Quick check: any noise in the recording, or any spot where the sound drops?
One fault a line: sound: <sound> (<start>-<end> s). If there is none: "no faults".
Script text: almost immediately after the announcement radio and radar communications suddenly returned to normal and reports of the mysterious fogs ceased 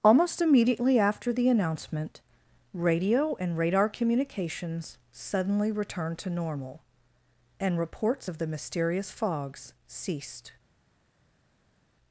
no faults